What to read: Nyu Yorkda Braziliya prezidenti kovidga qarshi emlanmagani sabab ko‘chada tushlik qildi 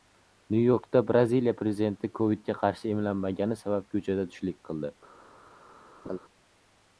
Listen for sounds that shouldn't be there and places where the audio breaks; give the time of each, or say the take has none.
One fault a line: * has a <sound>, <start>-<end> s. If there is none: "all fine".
* has a laugh, 6.0-6.2 s